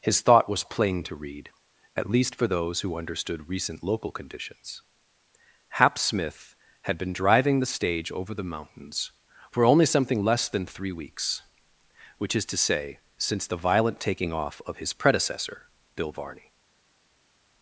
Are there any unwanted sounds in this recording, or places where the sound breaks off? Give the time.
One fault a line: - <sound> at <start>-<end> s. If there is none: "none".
none